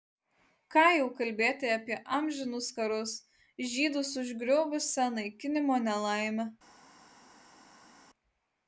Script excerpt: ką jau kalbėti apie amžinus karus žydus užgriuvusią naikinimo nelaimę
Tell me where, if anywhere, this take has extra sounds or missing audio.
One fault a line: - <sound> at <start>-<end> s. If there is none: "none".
none